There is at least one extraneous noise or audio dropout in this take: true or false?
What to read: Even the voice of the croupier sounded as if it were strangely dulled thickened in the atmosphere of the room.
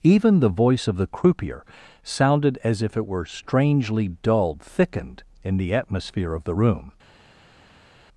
false